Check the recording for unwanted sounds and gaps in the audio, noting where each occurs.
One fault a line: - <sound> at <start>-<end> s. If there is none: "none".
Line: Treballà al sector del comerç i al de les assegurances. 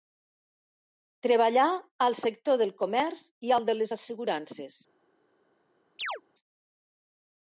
- chirp at 6.0-6.2 s